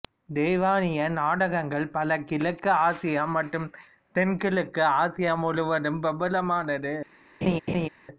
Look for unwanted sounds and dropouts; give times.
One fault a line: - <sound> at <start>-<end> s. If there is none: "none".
- laugh at 7.4-7.9 s